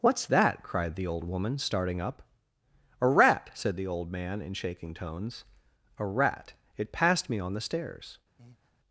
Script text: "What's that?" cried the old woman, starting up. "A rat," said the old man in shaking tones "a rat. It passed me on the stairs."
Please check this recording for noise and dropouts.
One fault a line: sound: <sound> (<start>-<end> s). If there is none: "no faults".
sound: breath (8.4-8.7 s)